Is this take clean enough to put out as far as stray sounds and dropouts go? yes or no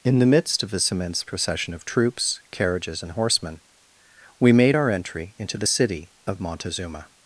yes